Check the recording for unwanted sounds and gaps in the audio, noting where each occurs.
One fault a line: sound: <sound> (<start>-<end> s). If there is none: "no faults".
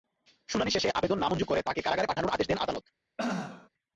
sound: throat clearing (3.2-3.7 s)